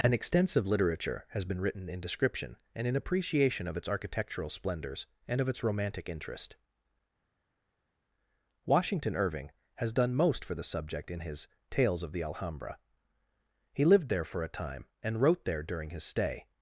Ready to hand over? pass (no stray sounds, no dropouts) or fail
pass